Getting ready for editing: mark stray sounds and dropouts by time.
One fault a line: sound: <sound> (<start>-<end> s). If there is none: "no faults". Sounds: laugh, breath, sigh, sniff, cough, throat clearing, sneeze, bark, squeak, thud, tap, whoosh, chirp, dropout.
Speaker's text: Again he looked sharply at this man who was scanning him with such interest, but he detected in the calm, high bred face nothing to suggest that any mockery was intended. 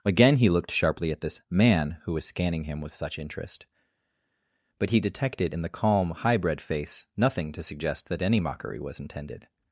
no faults